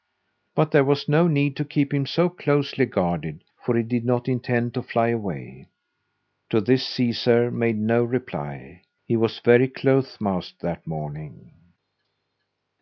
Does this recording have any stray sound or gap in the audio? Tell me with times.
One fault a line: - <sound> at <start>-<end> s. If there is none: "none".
none